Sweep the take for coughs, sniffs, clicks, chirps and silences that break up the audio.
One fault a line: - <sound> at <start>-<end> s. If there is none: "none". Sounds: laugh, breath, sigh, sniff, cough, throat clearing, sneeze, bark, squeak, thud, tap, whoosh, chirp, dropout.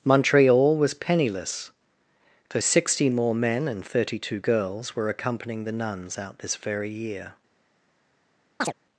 - chirp at 8.6-8.7 s